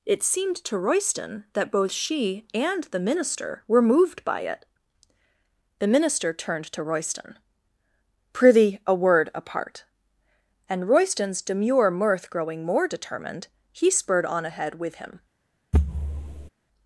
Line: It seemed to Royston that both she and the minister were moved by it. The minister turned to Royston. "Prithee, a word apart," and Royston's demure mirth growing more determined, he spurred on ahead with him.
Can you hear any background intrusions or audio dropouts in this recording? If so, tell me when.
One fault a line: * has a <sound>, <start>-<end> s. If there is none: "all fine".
* has a thud, 15.7-16.5 s